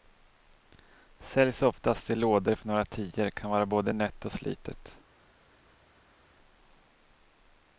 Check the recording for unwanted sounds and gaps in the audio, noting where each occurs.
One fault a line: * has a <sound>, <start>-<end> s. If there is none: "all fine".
all fine